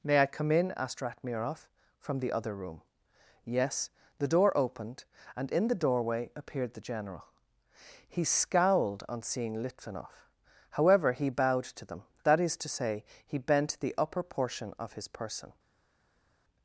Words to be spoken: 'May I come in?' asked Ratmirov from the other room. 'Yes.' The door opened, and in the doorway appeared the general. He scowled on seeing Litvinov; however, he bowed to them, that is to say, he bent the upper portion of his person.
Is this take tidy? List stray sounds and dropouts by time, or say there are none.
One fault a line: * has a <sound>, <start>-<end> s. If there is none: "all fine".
all fine